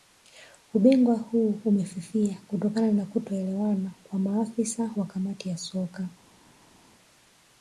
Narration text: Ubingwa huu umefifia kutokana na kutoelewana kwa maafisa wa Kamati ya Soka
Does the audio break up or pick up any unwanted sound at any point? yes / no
no